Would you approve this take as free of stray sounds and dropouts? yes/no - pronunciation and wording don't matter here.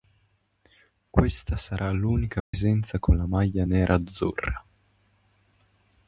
no